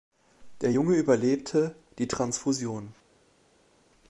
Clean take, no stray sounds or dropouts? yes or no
yes